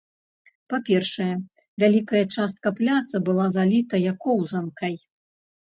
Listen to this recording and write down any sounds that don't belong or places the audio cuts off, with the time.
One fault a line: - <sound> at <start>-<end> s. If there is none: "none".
none